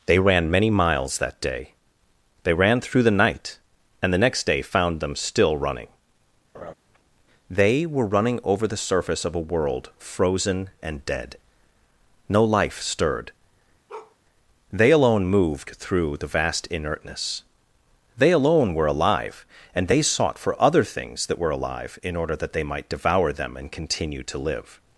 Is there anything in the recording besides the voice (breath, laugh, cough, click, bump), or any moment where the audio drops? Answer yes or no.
yes